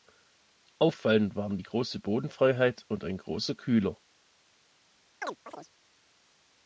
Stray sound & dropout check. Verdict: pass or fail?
fail